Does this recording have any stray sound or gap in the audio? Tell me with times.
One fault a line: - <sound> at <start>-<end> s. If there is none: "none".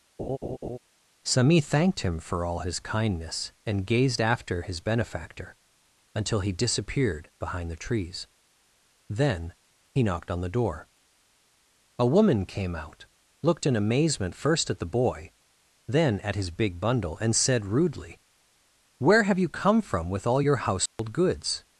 - laugh at 0.2-0.8 s
- dropout at 20.9-21.0 s